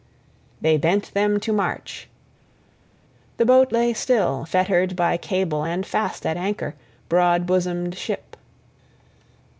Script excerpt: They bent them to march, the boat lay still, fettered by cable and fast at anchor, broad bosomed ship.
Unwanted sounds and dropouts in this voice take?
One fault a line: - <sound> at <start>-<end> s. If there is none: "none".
none